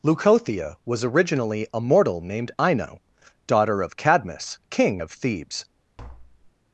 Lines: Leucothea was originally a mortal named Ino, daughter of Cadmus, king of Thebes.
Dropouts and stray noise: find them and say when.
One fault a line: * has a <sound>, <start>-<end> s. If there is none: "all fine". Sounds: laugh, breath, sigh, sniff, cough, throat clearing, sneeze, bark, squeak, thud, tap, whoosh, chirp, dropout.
* has a tap, 6.0-6.5 s